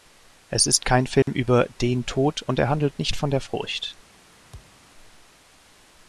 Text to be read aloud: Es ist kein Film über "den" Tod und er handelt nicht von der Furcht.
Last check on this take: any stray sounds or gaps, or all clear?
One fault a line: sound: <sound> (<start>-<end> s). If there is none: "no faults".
sound: dropout (1.2-1.3 s)
sound: thud (4.5-4.8 s)